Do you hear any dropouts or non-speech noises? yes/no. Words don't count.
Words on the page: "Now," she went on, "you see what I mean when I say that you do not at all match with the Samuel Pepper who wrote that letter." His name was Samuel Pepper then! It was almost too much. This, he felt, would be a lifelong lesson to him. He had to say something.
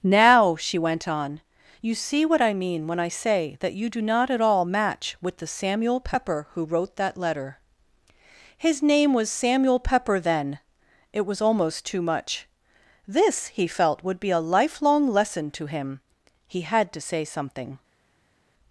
no